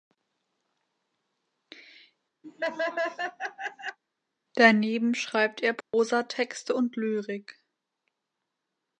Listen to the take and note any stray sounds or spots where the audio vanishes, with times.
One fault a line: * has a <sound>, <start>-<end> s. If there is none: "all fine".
* has a laugh, 2.4-4.0 s
* has a dropout, 5.8-5.9 s